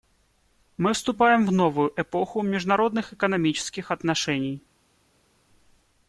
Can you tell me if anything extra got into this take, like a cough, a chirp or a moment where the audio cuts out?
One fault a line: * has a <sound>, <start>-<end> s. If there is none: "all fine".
all fine